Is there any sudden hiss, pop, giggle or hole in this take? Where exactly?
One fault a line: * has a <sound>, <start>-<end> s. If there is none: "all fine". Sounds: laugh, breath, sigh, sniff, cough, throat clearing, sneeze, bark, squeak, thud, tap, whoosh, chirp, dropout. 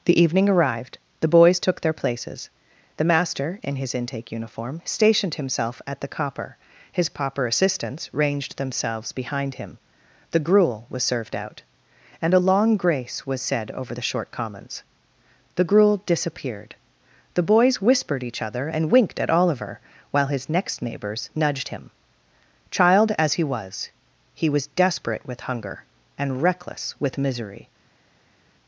all fine